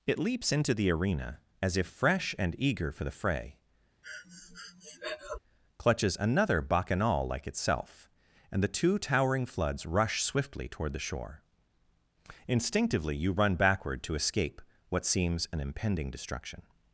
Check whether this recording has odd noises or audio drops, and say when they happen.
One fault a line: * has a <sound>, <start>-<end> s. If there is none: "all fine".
* has a breath, 4.0-5.4 s